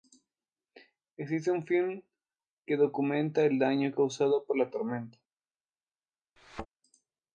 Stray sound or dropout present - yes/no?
yes